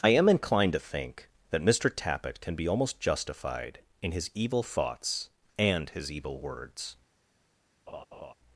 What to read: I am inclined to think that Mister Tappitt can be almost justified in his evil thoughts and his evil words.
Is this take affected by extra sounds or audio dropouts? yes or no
yes